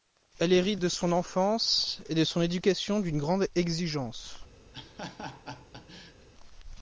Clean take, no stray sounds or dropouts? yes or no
no